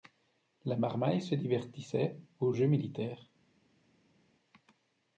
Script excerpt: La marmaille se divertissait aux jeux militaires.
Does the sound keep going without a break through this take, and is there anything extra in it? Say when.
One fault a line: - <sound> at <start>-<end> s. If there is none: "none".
none